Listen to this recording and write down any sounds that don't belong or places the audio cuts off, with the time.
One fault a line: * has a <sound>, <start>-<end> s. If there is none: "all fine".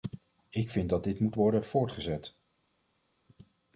all fine